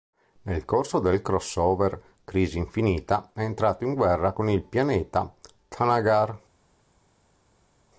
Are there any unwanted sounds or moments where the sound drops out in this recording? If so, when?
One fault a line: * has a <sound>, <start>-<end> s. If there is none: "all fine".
all fine